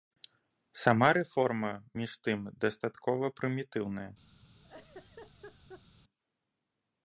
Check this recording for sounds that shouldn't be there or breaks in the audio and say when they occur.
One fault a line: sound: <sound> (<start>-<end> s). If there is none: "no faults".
sound: laugh (4.6-5.8 s)